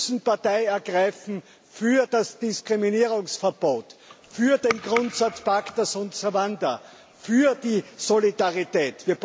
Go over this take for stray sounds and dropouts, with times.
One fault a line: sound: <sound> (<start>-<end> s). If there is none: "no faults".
no faults